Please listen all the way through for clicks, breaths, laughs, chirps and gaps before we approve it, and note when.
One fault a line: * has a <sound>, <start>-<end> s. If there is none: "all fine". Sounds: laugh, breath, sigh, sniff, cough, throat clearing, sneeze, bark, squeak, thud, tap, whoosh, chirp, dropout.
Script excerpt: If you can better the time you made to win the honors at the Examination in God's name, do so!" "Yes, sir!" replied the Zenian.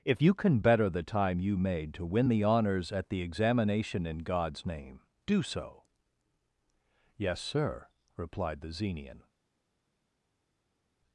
all fine